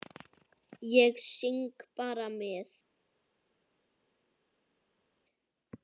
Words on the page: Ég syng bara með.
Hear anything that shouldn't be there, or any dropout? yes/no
no